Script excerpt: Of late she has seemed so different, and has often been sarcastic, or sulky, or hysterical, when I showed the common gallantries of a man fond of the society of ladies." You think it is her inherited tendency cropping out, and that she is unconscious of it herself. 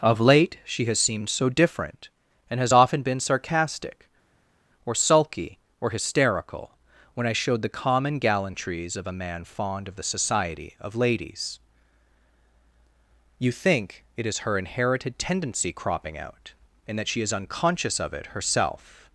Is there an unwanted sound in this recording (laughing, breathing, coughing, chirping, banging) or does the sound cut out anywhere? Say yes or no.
no